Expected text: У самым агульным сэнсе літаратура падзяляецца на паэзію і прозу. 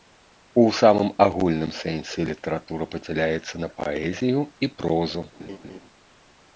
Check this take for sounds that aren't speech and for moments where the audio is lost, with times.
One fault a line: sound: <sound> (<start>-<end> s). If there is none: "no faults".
sound: laugh (5.4-5.8 s)